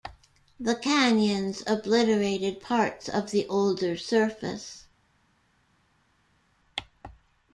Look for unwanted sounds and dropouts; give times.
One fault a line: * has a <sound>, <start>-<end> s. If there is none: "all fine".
all fine